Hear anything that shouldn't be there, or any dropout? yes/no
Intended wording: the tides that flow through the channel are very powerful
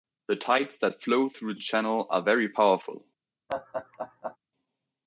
yes